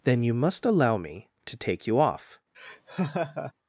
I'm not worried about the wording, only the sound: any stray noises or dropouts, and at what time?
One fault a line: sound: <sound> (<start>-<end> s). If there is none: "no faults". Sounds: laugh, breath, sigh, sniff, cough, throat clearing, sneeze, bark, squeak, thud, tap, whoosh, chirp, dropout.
sound: laugh (2.5-3.5 s)